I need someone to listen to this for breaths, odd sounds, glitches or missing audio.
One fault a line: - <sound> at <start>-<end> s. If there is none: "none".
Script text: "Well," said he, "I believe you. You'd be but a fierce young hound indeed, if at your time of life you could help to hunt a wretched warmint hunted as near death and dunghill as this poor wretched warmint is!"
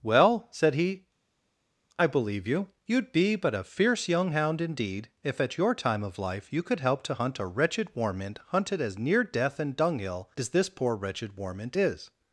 none